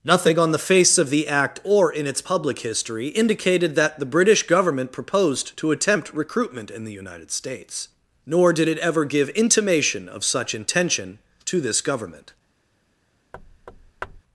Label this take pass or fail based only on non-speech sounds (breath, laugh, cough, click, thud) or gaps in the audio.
fail